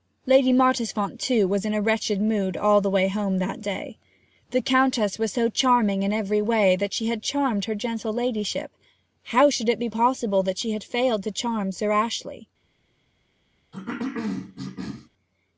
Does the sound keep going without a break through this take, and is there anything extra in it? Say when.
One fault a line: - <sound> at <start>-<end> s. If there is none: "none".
- cough at 13.7-15.1 s